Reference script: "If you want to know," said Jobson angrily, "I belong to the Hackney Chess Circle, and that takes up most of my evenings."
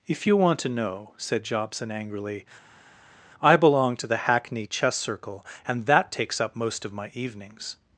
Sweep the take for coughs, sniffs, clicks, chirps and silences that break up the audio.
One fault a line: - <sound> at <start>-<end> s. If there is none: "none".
none